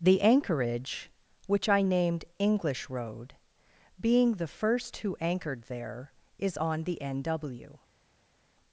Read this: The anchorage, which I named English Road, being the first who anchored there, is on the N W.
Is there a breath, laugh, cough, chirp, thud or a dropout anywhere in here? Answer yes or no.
no